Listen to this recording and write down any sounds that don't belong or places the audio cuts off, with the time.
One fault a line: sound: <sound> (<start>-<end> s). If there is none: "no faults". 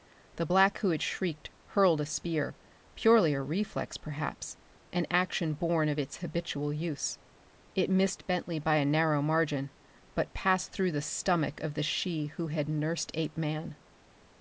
no faults